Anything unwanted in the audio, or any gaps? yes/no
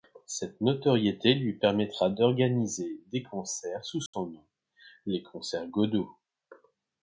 yes